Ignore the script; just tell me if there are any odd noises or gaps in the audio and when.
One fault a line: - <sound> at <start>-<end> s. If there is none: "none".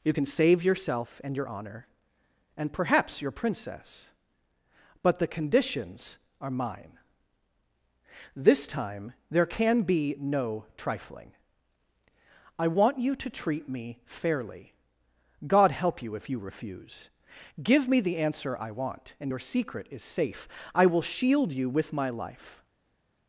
none